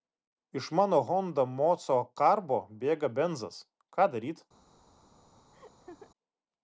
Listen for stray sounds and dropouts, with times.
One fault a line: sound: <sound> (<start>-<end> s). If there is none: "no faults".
sound: laugh (5.5-6.1 s)